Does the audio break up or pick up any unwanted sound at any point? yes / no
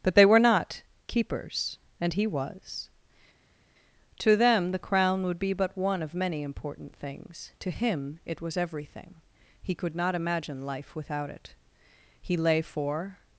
no